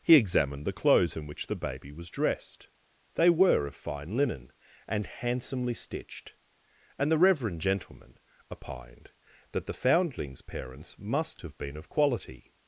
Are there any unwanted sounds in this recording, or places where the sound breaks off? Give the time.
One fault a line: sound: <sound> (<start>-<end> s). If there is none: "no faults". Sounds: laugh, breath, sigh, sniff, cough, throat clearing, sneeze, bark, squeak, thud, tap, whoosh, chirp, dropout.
no faults